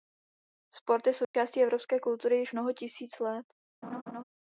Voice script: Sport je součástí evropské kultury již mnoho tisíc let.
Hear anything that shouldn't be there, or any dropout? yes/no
yes